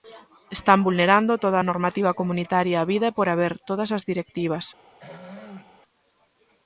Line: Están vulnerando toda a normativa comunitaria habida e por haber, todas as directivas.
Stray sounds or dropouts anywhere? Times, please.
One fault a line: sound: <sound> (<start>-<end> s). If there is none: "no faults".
sound: throat clearing (5.0-5.8 s)